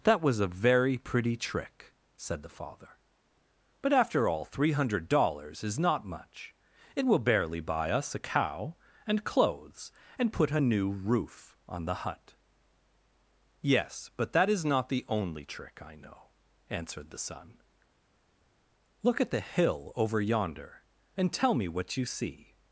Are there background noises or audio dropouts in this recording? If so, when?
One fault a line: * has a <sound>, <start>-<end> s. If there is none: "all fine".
all fine